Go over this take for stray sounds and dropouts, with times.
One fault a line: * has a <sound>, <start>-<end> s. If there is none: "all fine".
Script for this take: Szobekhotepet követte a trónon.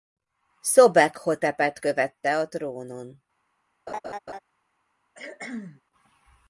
* has a laugh, 3.9-4.4 s
* has a cough, 5.1-5.8 s